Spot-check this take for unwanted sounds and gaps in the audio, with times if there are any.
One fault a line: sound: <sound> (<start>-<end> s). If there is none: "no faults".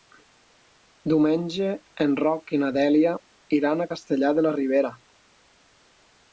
no faults